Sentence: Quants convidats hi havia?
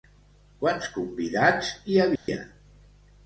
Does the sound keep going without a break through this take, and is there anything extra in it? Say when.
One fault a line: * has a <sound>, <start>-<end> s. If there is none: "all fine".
* has a dropout, 2.2-2.3 s